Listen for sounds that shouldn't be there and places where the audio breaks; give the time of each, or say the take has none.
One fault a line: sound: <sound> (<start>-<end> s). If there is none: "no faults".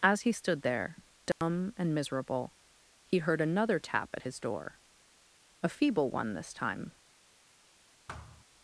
sound: dropout (1.3-1.4 s)
sound: thud (8.1-8.4 s)